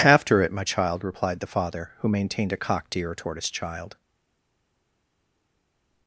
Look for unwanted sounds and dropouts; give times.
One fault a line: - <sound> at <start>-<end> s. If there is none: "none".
none